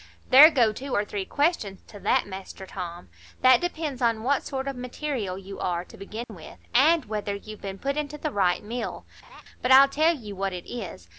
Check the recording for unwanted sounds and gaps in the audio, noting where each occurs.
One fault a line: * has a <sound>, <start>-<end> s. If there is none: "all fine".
* has a dropout, 6.2-6.3 s
* has a laugh, 9.2-9.4 s